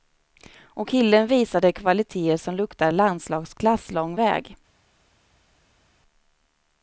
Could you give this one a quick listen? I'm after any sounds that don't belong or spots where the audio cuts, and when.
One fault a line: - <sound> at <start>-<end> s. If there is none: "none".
none